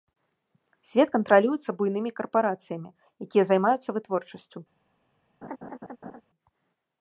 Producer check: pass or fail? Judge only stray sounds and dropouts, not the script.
fail